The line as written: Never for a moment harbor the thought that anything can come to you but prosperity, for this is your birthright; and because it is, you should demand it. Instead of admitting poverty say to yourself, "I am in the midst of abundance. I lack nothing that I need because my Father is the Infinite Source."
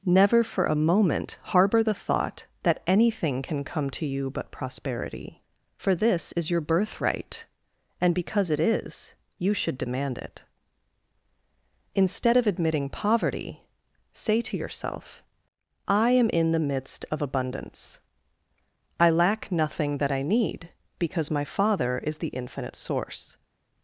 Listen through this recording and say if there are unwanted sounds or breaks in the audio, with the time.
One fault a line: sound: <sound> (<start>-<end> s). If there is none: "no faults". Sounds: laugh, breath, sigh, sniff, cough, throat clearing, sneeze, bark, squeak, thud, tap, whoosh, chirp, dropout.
no faults